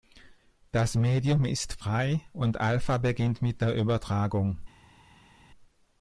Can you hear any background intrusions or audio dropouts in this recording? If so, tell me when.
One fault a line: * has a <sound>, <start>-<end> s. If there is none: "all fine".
all fine